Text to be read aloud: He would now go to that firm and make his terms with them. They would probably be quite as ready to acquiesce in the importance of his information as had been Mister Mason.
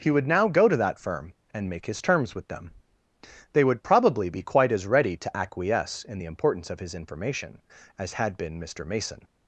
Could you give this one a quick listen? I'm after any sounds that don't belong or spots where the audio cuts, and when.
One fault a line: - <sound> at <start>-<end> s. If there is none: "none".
none